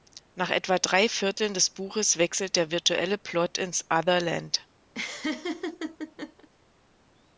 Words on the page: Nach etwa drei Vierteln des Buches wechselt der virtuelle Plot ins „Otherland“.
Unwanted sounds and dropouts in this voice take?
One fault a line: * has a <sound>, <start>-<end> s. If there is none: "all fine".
* has a laugh, 4.9-6.5 s